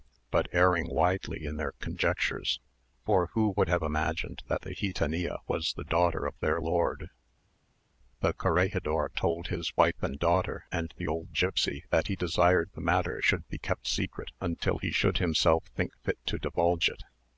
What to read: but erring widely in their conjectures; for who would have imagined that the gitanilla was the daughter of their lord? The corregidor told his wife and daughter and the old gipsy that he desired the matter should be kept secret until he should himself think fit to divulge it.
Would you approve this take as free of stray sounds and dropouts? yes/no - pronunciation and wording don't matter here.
yes